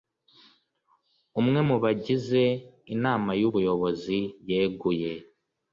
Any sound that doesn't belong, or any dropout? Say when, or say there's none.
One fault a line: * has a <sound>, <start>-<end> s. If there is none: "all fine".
all fine